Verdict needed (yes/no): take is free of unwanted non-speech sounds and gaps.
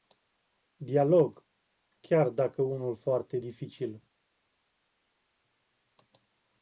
yes